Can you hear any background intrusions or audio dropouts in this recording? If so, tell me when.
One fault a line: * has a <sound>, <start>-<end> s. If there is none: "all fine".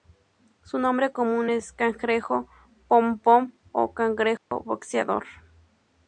* has a dropout, 4.4-4.5 s